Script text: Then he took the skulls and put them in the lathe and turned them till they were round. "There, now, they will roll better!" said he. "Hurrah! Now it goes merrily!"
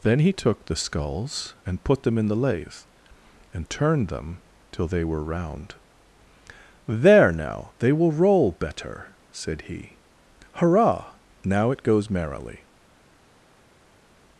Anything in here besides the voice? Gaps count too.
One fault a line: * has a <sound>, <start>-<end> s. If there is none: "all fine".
all fine